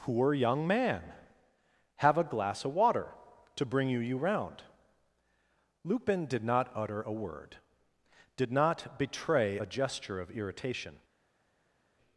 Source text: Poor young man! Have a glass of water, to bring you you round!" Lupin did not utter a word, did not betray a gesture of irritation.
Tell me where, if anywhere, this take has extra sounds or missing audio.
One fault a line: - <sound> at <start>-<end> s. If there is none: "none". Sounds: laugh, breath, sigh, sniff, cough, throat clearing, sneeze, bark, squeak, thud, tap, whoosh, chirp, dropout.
none